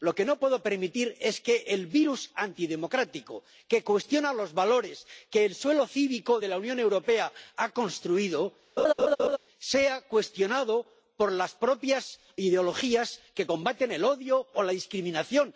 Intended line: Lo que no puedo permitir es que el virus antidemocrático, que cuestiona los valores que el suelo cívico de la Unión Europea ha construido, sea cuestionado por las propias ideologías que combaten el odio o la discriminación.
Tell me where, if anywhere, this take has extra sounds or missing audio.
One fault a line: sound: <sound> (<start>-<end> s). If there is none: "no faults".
sound: laugh (8.8-9.4 s)